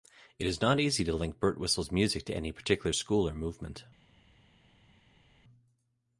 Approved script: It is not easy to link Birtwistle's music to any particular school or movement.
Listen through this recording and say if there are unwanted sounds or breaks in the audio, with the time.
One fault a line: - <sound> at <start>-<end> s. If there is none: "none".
none